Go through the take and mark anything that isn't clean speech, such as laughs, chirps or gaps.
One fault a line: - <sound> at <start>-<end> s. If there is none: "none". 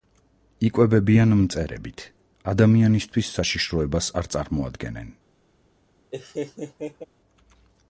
- laugh at 6.1-7.0 s